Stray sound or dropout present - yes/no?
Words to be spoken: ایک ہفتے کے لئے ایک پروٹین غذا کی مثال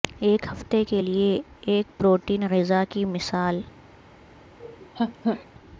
yes